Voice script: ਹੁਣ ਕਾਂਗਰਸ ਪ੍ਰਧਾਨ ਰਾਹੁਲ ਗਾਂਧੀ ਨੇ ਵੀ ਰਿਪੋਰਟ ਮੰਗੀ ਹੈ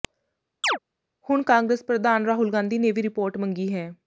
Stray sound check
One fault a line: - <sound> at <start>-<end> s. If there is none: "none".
- chirp at 0.6-0.8 s